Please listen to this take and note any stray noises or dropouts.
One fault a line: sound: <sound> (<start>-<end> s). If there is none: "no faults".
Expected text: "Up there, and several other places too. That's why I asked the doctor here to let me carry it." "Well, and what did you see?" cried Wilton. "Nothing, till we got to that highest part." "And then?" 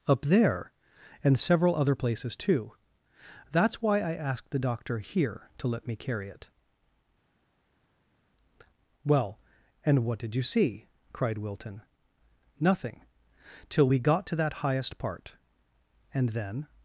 no faults